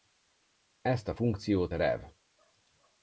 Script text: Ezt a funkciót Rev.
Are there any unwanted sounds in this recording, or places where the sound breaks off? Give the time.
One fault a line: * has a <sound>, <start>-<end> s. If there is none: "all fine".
all fine